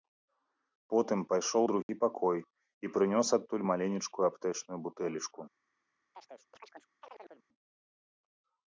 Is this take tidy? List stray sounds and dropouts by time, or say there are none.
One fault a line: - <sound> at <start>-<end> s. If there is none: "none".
- dropout at 1.8-1.9 s
- chirp at 6.1-7.5 s